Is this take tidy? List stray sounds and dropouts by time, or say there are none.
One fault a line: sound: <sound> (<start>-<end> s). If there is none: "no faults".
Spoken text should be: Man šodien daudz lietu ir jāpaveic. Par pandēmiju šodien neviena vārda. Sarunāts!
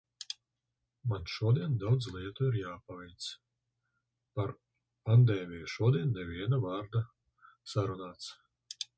no faults